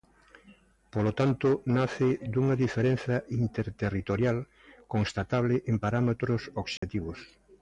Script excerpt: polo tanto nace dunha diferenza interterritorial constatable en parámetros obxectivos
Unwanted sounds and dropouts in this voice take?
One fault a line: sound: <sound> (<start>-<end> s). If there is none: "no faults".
sound: dropout (6.8-6.8 s)